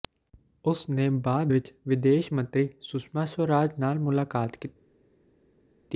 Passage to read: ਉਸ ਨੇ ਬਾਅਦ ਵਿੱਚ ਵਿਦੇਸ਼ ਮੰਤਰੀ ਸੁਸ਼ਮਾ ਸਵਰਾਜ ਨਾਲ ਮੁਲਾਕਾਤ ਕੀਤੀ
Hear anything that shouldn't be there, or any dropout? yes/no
no